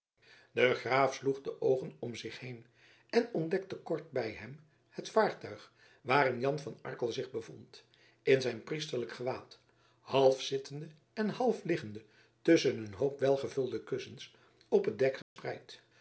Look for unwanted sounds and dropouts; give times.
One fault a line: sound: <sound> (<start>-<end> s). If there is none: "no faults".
sound: dropout (15.2-15.4 s)